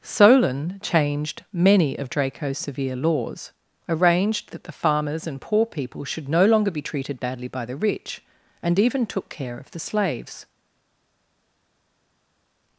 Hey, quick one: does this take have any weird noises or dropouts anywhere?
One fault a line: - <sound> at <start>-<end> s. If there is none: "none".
none